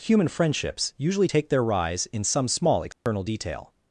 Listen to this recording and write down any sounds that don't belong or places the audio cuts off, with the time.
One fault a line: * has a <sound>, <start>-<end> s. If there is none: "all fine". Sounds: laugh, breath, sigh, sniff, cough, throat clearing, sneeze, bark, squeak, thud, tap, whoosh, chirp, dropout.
* has a dropout, 2.9-3.1 s